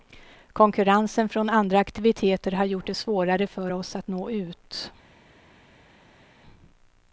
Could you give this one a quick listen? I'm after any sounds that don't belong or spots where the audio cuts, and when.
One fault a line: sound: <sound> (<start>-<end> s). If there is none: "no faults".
no faults